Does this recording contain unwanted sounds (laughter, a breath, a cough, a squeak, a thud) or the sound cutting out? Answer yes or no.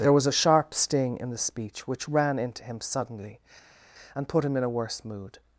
no